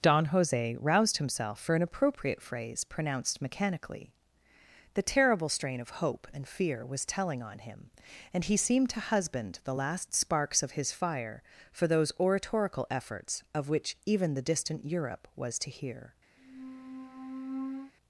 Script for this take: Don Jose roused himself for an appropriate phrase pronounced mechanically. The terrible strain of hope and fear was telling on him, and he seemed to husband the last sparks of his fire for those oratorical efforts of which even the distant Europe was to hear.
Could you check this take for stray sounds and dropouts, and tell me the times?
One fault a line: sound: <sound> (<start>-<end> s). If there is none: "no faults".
sound: squeak (16.4-17.9 s)